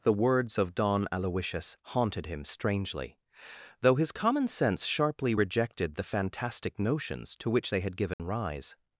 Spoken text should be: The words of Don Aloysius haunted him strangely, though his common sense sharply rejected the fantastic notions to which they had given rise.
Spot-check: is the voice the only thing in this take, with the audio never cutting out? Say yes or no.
no